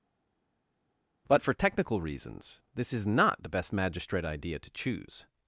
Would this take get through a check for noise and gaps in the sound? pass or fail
pass